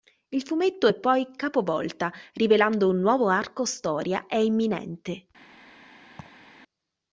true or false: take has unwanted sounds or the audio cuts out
true